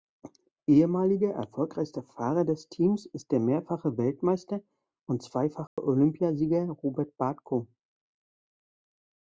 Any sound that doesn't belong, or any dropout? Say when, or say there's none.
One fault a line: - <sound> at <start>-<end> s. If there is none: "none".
- dropout at 5.7-5.8 s